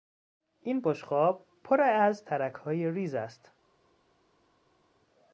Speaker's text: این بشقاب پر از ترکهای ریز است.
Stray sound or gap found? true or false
false